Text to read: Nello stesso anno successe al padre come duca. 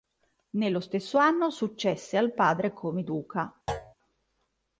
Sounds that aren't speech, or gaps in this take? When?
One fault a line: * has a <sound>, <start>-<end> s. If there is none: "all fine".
* has a thud, 3.7-3.9 s